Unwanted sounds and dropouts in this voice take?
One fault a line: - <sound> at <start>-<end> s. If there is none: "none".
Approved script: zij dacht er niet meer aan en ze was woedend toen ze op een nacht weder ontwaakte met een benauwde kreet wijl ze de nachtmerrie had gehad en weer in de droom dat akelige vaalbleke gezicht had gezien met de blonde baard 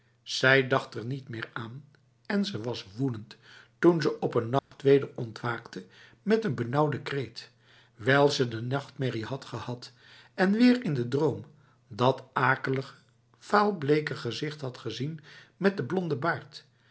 - dropout at 4.6-4.7 s